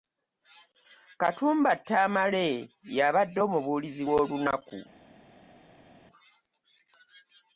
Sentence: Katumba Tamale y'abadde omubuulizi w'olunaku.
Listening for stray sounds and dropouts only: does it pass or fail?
pass